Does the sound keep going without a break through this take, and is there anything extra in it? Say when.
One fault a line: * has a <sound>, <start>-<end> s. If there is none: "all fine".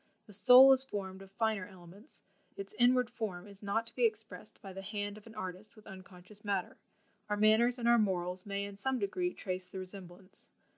all fine